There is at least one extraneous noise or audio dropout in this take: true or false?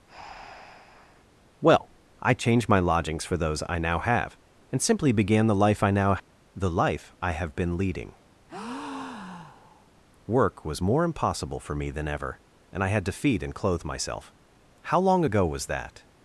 true